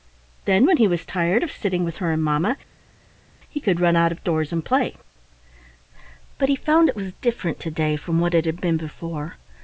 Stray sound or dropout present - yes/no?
no